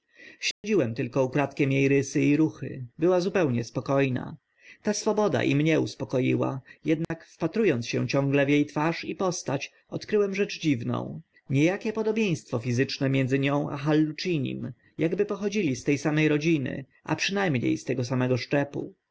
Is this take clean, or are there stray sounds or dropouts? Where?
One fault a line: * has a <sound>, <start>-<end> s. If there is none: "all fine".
* has a dropout, 0.5-0.6 s
* has a dropout, 7.0-7.1 s